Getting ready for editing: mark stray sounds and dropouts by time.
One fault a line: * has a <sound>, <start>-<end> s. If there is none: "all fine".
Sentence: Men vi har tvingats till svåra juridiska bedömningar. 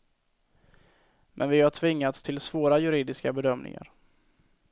all fine